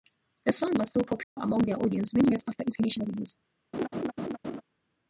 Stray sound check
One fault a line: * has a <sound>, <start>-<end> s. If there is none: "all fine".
* has a dropout, 1.2-1.4 s
* has a laugh, 3.7-4.6 s